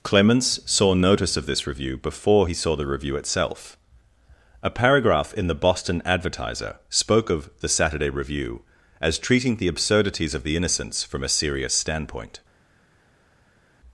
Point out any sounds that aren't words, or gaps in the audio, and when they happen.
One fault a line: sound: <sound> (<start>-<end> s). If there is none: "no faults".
no faults